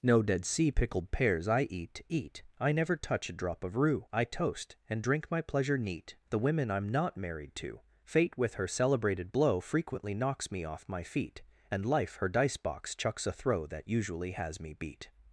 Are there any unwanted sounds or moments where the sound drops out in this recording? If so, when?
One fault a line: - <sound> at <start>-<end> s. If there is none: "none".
none